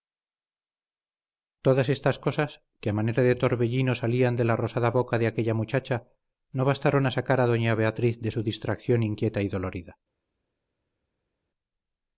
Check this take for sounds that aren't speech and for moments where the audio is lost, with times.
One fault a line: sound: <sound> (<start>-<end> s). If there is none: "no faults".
no faults